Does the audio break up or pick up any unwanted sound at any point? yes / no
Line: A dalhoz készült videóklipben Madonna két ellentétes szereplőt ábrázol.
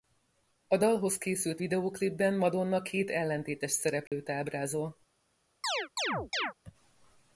yes